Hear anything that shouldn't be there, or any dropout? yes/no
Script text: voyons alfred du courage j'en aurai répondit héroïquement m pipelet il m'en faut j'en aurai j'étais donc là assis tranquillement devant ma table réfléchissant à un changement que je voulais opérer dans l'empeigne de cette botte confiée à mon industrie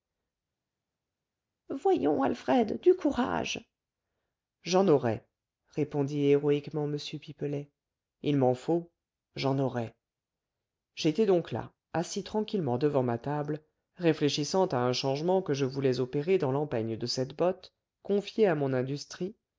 no